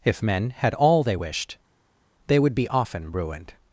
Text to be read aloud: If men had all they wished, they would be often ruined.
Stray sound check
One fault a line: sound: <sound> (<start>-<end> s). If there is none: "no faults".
no faults